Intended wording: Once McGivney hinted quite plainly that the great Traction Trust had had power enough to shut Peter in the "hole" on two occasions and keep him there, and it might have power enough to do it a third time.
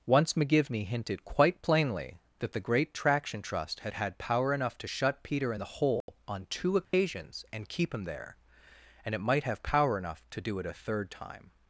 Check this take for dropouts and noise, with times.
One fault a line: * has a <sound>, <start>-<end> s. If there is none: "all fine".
* has a dropout, 6.0-6.1 s
* has a dropout, 6.8-6.9 s